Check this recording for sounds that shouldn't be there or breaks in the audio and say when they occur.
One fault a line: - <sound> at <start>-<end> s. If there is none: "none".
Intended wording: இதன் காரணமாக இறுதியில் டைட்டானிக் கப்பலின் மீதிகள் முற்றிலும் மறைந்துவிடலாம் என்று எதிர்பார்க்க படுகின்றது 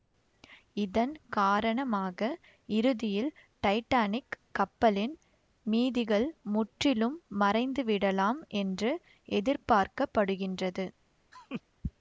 - laugh at 11.3-11.6 s